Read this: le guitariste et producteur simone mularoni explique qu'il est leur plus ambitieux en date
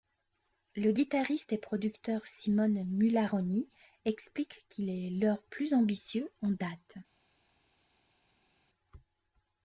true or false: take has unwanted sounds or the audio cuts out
false